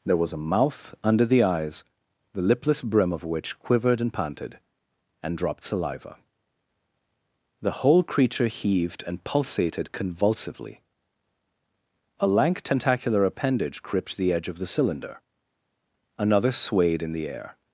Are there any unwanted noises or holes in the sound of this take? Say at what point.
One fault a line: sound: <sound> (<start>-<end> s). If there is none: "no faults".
no faults